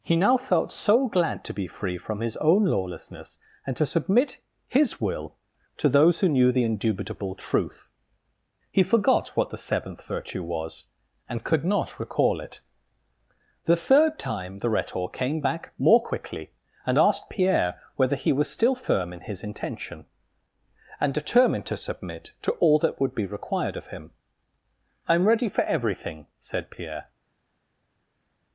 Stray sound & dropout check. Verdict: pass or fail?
pass